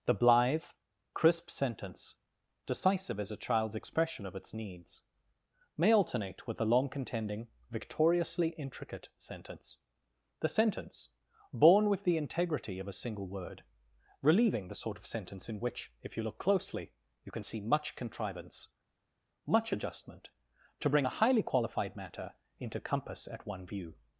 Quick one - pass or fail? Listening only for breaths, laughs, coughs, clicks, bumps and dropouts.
pass